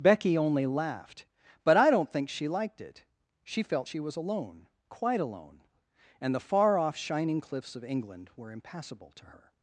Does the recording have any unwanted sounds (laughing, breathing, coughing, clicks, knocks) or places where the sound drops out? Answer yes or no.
no